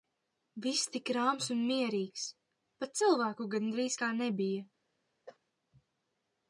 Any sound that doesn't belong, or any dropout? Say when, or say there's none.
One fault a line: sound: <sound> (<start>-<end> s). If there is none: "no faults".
sound: cough (5.3-5.4 s)